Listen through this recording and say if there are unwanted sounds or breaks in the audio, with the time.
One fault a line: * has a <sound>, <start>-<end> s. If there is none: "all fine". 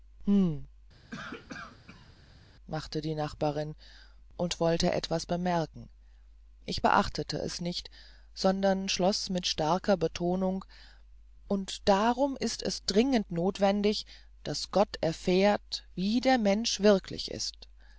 * has a cough, 1.1-2.1 s